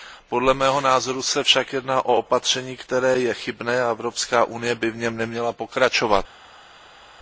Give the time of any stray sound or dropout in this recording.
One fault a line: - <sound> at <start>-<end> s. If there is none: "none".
none